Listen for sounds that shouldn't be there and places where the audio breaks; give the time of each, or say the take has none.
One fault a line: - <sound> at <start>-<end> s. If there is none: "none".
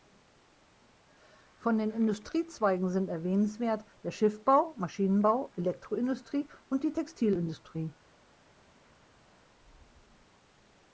none